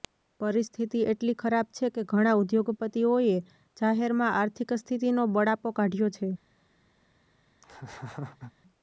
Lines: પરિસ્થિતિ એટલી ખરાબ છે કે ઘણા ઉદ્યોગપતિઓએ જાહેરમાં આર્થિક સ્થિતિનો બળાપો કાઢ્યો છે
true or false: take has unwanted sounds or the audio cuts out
true